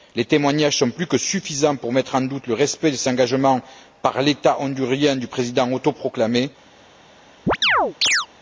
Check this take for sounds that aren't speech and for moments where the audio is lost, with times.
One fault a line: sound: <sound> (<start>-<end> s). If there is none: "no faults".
sound: chirp (7.5-8.3 s)